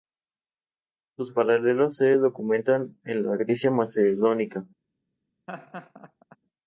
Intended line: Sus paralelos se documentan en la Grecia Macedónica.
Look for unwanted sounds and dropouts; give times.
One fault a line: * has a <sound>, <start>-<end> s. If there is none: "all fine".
* has a laugh, 5.5-6.4 s